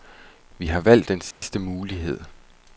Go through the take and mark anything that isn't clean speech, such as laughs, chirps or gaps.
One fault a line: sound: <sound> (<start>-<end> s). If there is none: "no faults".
sound: dropout (1.3-1.4 s)